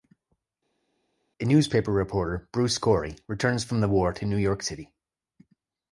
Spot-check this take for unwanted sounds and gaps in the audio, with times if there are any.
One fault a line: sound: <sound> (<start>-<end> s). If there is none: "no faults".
no faults